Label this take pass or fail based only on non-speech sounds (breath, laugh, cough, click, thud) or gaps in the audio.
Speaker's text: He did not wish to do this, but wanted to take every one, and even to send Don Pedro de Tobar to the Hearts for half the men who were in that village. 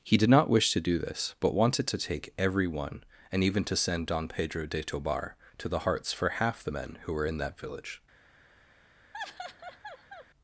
fail